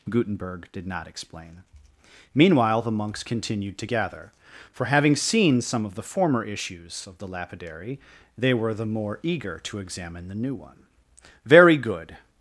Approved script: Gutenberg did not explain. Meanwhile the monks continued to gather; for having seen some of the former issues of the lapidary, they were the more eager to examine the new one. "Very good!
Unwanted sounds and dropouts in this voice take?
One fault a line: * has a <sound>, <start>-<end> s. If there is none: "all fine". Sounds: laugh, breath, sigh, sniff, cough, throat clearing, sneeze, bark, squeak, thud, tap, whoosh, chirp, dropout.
all fine